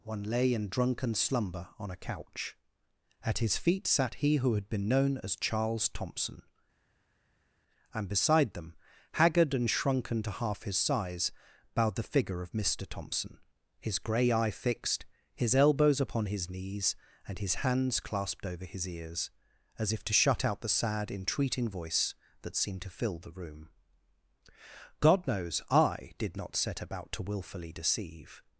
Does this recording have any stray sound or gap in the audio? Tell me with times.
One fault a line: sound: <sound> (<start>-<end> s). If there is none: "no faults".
no faults